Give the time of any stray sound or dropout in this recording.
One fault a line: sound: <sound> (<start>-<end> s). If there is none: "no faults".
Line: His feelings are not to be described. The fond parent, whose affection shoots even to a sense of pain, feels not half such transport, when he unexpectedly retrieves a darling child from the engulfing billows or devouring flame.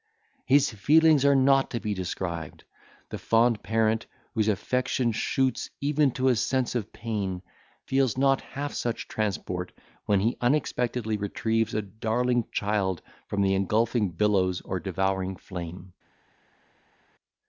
no faults